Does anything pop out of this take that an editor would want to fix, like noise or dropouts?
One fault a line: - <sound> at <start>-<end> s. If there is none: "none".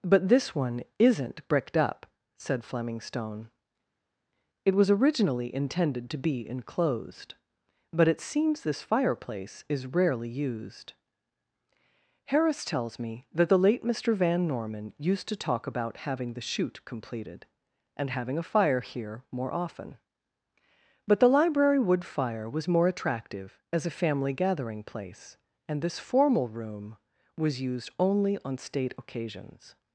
none